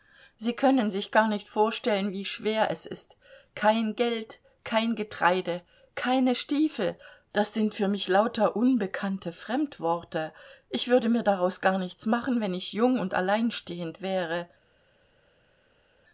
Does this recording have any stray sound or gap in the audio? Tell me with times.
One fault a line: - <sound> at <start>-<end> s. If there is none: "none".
none